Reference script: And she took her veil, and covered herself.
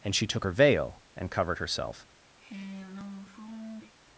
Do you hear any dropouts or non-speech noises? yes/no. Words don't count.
yes